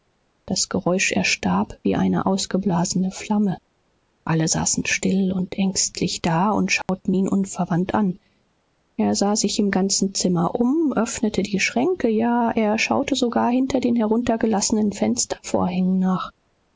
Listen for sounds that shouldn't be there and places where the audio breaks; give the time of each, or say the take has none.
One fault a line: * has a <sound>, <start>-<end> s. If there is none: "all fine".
* has a dropout, 6.8-6.9 s